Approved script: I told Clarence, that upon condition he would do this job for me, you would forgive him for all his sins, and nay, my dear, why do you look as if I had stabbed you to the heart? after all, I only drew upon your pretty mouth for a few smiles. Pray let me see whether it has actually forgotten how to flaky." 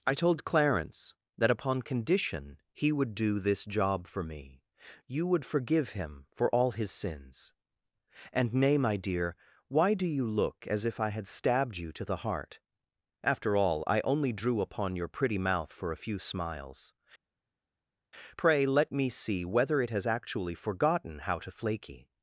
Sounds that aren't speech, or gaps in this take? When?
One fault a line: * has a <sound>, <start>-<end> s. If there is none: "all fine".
all fine